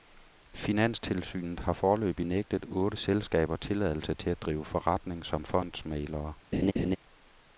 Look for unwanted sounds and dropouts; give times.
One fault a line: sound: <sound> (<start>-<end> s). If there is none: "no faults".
sound: laugh (6.5-7.0 s)